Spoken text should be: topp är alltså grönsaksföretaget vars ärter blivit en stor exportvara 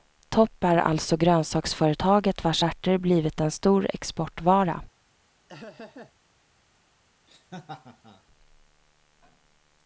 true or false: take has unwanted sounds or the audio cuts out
true